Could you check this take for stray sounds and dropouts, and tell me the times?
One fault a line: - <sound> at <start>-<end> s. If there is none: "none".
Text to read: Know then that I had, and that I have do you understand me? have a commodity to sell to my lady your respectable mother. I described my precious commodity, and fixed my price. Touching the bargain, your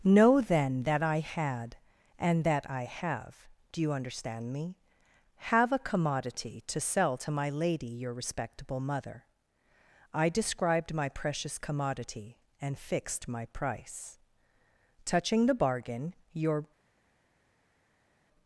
none